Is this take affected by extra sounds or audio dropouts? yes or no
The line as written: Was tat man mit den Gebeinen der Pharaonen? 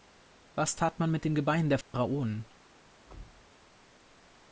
yes